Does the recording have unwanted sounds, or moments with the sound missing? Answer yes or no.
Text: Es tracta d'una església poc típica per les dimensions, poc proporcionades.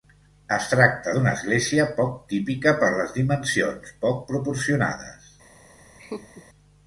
yes